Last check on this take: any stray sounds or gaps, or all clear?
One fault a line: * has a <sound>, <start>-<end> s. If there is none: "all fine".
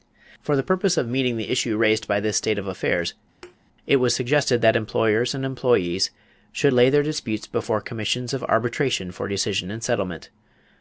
* has a thud, 3.4-3.6 s